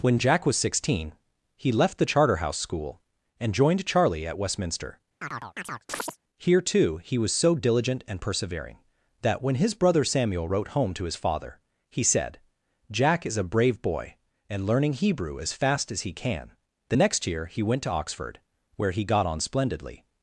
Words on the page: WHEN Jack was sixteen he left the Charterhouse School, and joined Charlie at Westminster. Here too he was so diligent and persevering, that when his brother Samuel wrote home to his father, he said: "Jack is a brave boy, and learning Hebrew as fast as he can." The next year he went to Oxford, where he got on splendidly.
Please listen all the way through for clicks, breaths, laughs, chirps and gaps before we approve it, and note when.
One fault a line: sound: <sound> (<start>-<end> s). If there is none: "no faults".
sound: chirp (5.2-6.2 s)